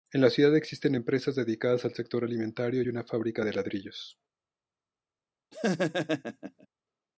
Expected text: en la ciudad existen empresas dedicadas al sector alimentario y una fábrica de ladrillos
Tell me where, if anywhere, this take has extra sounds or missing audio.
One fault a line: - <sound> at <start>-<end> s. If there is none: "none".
- laugh at 5.5-6.7 s